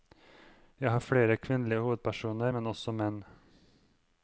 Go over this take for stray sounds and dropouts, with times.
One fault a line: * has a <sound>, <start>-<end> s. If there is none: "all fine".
all fine